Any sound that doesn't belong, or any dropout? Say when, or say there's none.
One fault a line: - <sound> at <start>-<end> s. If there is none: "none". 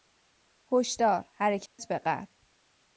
- dropout at 1.7-1.8 s